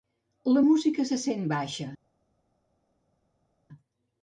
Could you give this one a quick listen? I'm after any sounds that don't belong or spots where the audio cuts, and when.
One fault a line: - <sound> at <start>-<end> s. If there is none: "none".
none